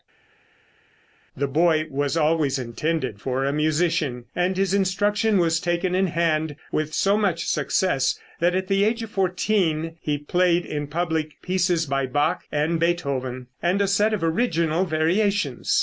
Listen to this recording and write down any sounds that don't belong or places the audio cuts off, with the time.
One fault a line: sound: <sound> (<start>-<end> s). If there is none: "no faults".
no faults